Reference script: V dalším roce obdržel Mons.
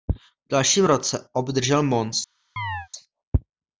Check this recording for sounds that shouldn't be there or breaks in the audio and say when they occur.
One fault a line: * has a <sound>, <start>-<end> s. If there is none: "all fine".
* has a chirp, 2.6-2.9 s